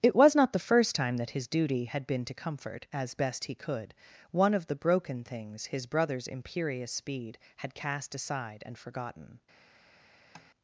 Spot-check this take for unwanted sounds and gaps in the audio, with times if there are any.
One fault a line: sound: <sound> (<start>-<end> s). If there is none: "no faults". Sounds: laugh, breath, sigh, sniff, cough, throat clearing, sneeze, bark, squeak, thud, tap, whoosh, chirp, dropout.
sound: tap (10.3-10.5 s)